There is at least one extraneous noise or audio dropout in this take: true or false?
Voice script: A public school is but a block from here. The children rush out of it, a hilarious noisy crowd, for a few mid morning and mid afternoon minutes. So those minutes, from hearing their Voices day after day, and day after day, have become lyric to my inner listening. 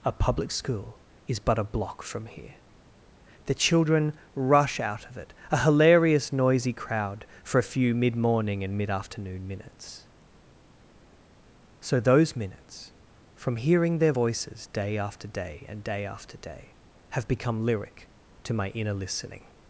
false